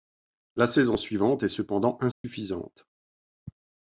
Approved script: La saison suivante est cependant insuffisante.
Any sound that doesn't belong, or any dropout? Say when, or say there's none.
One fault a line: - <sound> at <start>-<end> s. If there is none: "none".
- dropout at 2.1-2.2 s